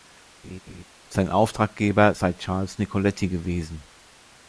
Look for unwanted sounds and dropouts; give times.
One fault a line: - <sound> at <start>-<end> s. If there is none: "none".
- laugh at 0.4-0.8 s